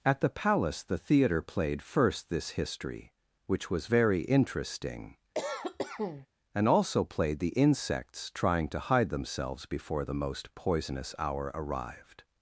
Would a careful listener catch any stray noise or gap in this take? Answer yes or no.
yes